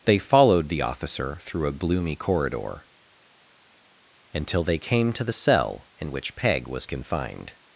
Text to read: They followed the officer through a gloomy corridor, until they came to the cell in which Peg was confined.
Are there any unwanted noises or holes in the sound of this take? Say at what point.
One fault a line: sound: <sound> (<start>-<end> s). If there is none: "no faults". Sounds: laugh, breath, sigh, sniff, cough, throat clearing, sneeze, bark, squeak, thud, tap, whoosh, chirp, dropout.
no faults